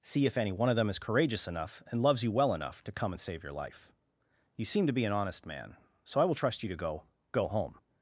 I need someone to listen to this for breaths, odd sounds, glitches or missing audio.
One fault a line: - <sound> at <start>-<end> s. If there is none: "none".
none